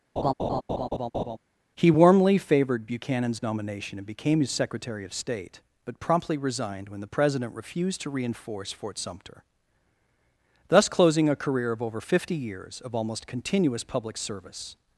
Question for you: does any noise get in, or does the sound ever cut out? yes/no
yes